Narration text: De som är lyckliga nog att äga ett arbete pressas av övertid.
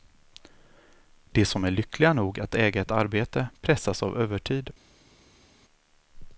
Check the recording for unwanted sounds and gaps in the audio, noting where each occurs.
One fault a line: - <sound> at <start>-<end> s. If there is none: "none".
none